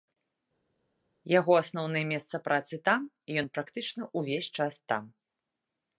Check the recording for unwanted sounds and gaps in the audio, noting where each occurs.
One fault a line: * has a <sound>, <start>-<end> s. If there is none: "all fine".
all fine